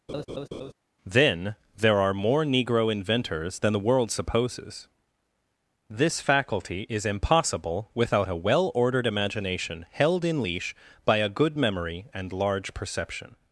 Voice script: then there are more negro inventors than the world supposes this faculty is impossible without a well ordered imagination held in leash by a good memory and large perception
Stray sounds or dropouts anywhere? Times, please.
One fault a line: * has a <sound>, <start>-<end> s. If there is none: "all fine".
* has a laugh, 0.1-0.7 s